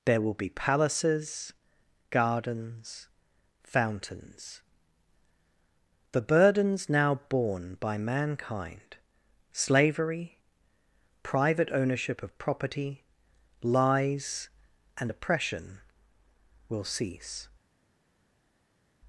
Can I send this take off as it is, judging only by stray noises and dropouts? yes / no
yes